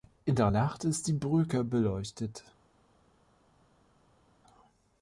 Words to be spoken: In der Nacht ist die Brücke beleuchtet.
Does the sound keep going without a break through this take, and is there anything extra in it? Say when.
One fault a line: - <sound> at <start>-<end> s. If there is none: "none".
none